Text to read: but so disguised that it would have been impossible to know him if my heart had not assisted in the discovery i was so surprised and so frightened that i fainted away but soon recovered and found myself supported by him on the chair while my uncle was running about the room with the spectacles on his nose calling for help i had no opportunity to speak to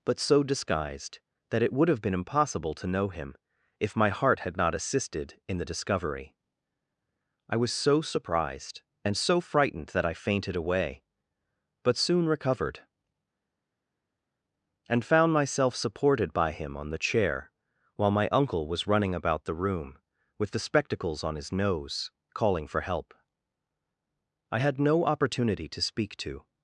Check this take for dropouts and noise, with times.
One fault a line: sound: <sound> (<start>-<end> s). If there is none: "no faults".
no faults